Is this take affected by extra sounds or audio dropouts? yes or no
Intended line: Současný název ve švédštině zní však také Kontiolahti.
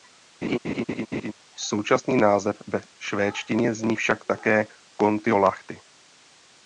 yes